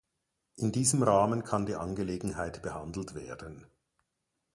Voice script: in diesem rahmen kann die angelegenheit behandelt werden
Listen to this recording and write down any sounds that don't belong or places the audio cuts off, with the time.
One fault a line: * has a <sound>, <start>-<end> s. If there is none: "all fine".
all fine